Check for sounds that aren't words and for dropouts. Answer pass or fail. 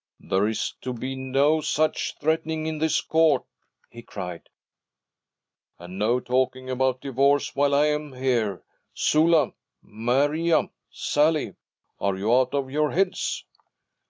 pass